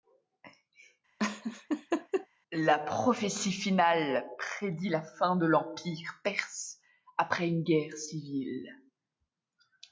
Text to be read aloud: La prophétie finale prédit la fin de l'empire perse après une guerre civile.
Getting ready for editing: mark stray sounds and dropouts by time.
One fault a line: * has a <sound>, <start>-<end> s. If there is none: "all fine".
* has a laugh, 1.2-2.3 s